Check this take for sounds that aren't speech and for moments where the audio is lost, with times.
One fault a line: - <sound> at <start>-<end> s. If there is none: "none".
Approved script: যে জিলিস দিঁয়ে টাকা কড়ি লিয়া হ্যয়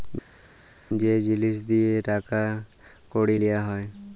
none